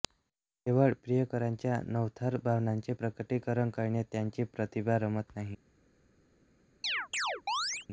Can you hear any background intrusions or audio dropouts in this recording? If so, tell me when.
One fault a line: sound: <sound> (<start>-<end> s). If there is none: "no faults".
sound: chirp (6.8-7.9 s)